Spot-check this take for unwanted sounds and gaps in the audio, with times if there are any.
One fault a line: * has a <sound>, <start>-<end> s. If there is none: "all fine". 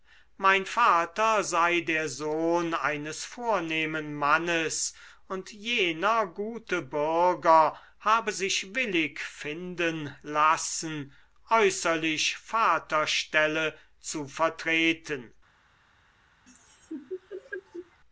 * has a laugh, 16.5-18.0 s